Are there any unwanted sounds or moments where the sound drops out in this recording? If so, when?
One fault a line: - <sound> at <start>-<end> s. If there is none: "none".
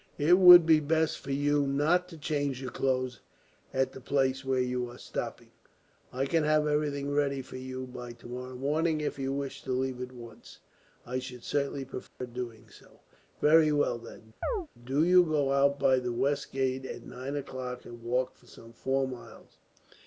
- dropout at 12.1-12.2 s
- chirp at 14.4-14.7 s